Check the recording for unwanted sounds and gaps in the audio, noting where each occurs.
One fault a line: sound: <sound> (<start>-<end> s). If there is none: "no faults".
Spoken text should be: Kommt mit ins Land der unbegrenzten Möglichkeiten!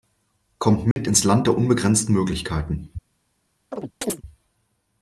sound: dropout (0.9-1.0 s)
sound: chirp (3.7-4.2 s)